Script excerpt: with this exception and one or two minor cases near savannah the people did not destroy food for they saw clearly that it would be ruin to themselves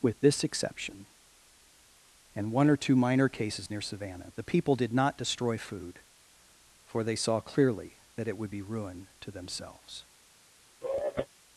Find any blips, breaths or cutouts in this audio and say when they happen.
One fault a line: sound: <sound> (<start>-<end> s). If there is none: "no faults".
sound: sigh (10.8-11.3 s)